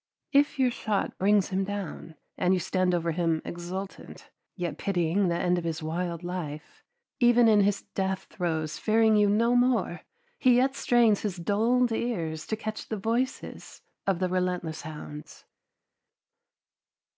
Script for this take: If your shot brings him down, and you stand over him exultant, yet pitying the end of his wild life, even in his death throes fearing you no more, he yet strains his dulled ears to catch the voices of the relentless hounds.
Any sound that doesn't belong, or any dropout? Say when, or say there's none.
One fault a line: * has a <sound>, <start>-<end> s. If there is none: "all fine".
all fine